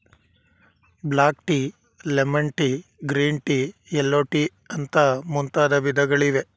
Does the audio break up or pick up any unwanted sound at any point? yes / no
no